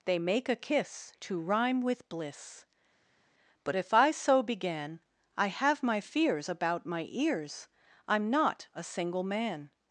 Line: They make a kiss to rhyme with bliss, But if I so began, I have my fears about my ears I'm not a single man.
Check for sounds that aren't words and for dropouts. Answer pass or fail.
pass